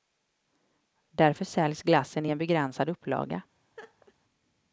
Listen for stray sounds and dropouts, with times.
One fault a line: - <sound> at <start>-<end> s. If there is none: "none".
- laugh at 3.8-4.1 s